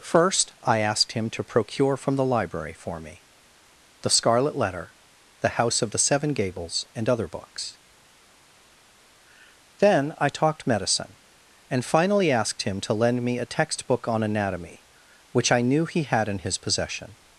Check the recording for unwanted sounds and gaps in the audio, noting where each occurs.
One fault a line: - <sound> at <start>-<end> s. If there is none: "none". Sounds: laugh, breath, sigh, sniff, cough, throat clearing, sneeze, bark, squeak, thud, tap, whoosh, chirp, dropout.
none